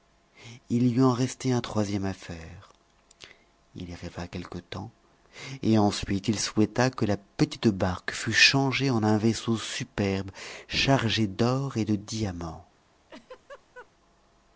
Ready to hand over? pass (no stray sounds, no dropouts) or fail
fail